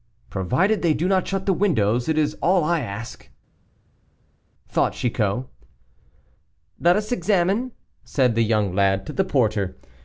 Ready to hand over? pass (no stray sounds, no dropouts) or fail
pass